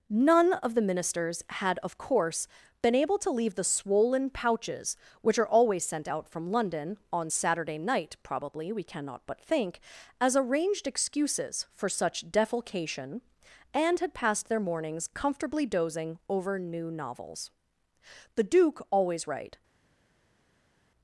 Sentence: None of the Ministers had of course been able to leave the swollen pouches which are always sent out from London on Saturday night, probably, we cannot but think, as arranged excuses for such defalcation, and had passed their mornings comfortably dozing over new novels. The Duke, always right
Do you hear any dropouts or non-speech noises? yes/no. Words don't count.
no